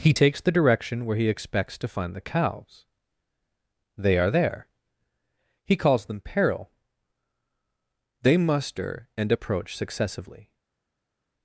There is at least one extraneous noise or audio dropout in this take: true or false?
false